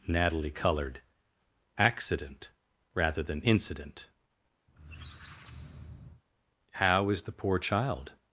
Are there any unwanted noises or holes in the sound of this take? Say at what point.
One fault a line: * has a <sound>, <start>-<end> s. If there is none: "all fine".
* has a squeak, 4.7-6.2 s